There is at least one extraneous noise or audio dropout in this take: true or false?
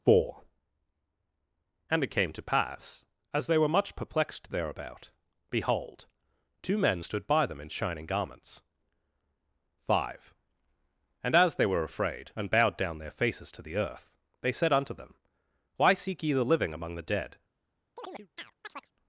true